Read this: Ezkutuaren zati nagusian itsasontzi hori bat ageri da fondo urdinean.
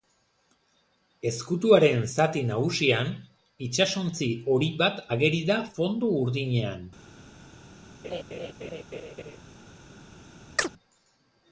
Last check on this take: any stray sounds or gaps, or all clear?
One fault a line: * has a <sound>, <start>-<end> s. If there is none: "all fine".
* has a laugh, 8.0-9.4 s
* has a chirp, 10.6-10.7 s